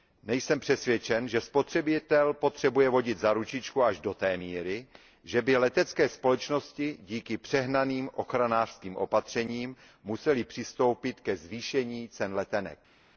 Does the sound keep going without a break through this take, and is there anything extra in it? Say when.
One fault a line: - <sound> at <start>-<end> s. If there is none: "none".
none